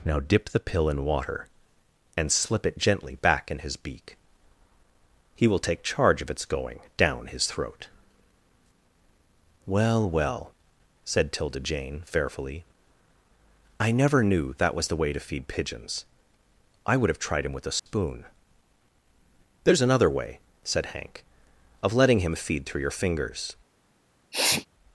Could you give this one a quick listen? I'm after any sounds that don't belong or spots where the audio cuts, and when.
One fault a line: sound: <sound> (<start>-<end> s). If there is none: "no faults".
sound: dropout (17.8-17.9 s)
sound: sneeze (24.3-24.7 s)